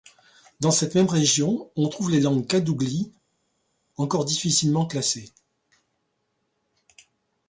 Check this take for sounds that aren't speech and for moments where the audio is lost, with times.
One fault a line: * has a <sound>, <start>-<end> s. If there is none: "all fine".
all fine